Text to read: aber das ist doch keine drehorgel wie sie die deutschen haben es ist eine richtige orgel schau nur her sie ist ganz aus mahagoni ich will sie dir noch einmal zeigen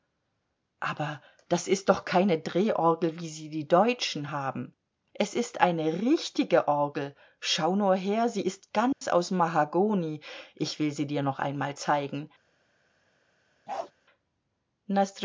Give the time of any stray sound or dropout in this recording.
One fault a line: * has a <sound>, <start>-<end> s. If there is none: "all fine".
* has a dropout, 8.9-9.0 s
* has a bark, 13.7-13.9 s